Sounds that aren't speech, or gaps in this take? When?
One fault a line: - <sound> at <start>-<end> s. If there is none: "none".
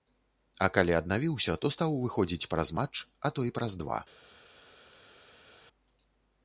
none